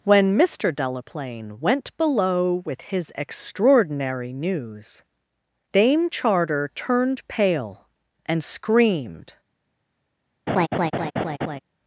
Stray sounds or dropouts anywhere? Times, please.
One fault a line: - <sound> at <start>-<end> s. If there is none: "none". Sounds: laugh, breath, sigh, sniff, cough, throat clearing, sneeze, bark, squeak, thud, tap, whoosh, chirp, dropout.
- laugh at 10.5-11.6 s